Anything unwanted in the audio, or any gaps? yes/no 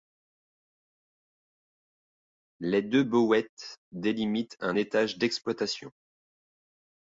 no